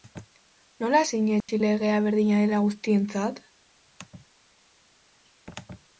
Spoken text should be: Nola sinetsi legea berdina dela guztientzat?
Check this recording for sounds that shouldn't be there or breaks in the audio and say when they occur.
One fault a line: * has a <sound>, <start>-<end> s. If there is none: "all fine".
* has a dropout, 1.4-1.5 s